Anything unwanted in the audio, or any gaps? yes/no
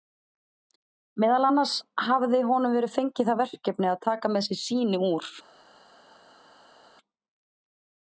no